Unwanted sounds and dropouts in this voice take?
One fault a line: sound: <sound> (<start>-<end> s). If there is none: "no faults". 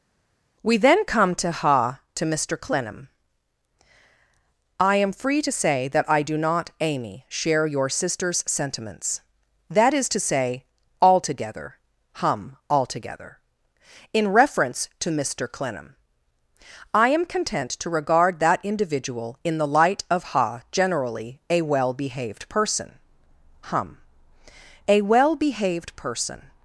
no faults